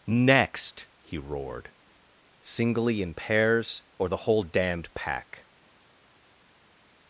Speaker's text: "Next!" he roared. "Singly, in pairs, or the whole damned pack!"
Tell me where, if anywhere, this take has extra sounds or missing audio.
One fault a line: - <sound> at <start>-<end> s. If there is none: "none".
none